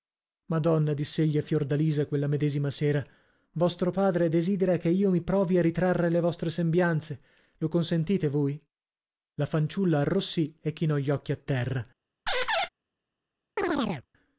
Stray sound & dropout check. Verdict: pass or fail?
fail